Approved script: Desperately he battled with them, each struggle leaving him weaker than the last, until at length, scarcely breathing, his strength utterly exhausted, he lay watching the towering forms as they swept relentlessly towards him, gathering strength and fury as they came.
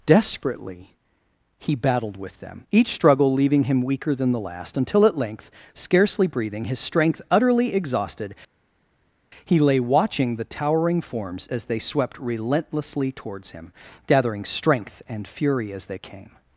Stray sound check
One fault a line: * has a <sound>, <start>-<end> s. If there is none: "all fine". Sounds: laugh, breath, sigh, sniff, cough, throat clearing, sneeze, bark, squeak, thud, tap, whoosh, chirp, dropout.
all fine